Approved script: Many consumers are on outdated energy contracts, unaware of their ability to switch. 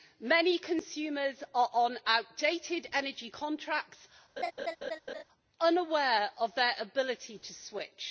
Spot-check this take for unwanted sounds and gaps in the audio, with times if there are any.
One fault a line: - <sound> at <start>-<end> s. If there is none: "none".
- laugh at 4.4-5.2 s